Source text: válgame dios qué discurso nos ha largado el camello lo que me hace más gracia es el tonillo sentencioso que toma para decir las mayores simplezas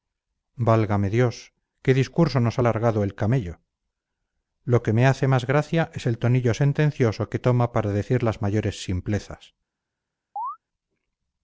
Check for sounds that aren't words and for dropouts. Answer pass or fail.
fail